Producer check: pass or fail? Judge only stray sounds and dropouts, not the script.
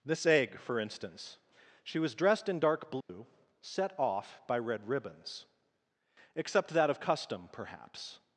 fail